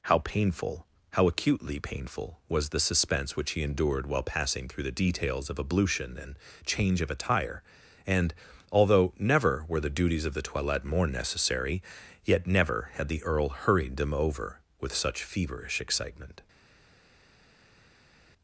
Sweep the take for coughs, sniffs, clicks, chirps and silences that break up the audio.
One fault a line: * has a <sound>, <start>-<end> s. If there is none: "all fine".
all fine